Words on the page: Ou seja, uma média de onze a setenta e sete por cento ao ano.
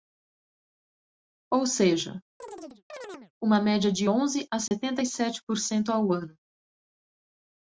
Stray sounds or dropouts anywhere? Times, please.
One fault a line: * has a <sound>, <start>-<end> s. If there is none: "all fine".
* has a chirp, 2.4-3.3 s
* has a dropout, 4.7-4.7 s